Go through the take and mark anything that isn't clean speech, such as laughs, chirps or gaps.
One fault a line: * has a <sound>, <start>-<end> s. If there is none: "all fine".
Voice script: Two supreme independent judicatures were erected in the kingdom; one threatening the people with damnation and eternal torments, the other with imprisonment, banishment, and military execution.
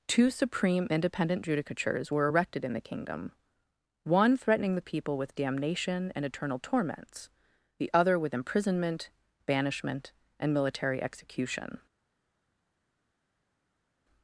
all fine